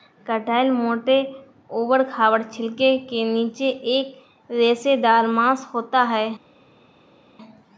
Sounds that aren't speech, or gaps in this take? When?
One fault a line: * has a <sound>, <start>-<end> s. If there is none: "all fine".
all fine